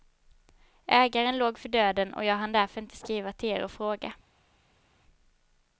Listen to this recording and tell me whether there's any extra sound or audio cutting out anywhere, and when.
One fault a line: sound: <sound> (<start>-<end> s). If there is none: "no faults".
no faults